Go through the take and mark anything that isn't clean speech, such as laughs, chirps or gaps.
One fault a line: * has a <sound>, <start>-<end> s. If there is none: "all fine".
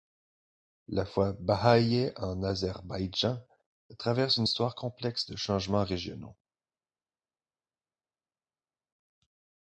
all fine